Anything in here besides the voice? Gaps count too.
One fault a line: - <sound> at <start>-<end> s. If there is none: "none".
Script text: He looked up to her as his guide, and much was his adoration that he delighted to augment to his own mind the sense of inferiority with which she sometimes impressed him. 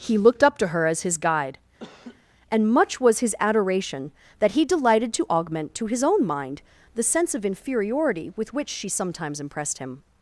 - laugh at 1.8-2.3 s